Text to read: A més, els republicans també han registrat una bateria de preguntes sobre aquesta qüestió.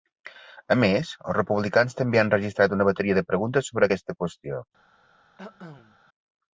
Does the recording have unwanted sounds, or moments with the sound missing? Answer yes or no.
yes